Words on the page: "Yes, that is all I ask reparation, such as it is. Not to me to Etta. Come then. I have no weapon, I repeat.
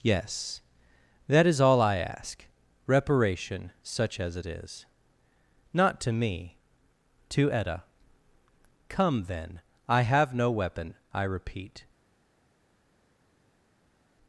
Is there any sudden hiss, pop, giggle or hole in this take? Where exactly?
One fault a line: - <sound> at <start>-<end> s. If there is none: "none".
none